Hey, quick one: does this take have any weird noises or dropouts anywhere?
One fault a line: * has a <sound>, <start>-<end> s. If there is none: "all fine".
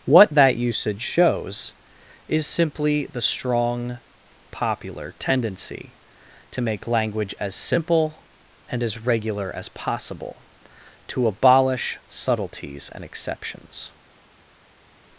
all fine